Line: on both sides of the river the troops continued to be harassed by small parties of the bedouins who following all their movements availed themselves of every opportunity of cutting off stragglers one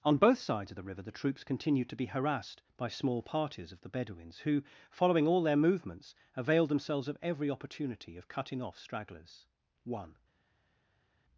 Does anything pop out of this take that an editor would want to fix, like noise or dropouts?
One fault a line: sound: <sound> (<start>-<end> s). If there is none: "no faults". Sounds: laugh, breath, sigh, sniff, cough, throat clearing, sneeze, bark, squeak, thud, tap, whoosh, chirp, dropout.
no faults